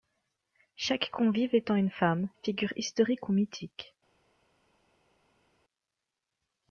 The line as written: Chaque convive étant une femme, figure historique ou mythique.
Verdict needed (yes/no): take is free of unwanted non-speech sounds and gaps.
yes